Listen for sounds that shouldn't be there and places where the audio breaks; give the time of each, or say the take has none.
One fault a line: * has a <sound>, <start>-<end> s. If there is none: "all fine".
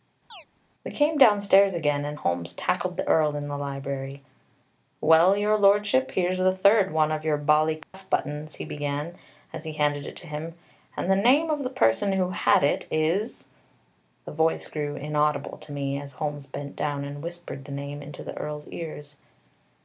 * has a chirp, 0.3-0.5 s
* has a dropout, 7.8-7.9 s